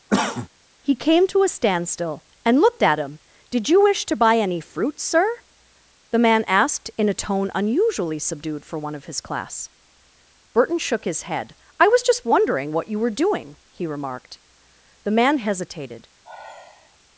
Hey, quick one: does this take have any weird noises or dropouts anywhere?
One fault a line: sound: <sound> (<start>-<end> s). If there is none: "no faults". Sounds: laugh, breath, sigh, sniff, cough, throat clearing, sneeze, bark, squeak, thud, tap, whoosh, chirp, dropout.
sound: cough (0.1-0.5 s)
sound: sigh (16.2-17.0 s)